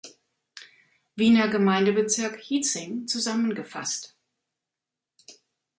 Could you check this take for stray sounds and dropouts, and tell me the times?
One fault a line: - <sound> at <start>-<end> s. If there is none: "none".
none